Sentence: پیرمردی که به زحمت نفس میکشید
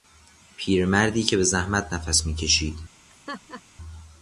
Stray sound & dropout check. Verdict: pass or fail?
fail